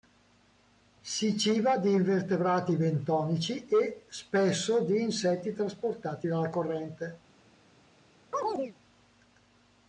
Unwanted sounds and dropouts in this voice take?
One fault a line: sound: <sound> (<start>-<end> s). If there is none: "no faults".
sound: chirp (8.3-8.8 s)